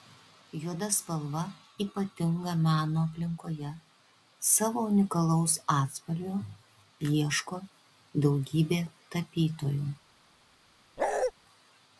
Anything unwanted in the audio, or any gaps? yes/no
yes